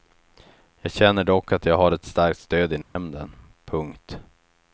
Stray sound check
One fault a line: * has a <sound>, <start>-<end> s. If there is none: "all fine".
* has a dropout, 2.8-3.0 s